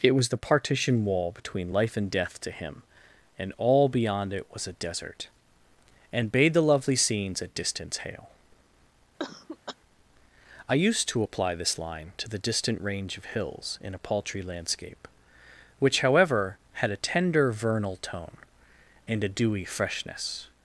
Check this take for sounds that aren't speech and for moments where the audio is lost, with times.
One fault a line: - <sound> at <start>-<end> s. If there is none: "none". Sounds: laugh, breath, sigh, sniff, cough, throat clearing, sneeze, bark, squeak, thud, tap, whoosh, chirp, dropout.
- cough at 9.2-9.8 s